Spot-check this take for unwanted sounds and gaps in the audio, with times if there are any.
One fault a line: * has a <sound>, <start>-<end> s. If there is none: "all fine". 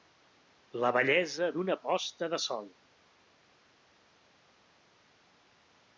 all fine